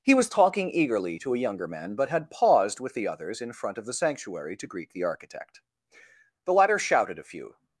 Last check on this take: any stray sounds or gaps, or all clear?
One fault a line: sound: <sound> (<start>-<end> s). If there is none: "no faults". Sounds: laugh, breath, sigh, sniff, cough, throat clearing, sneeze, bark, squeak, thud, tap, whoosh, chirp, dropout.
no faults